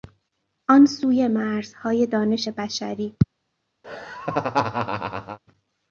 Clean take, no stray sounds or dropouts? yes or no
no